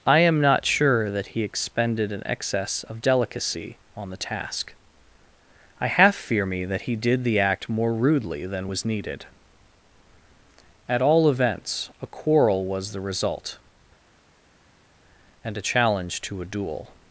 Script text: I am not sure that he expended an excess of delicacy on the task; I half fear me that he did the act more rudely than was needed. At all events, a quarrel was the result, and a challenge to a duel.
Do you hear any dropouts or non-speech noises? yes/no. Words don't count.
no